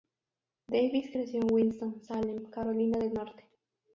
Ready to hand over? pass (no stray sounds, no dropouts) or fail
pass